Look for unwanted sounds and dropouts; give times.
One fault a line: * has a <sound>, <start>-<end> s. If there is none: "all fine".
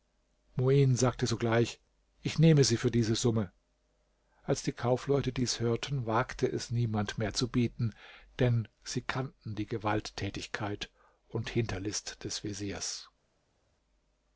all fine